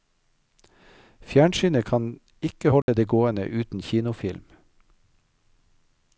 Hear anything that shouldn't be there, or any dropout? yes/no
yes